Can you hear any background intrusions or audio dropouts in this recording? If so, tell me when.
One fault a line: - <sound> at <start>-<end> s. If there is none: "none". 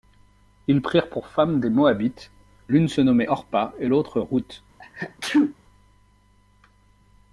- sneeze at 4.8-5.5 s